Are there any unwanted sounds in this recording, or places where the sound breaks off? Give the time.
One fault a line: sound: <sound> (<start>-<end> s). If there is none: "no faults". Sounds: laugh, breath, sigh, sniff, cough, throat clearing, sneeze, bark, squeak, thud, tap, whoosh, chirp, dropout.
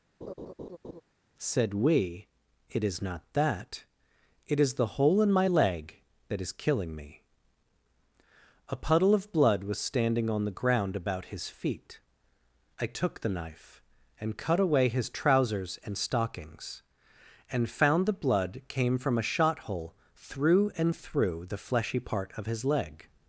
sound: laugh (0.2-1.0 s)